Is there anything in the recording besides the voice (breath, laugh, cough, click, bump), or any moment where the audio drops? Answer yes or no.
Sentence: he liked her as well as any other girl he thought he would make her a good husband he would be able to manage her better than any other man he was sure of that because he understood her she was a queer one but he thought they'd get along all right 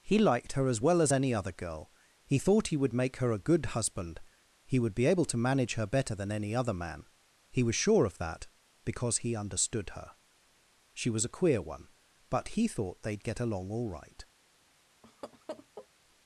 yes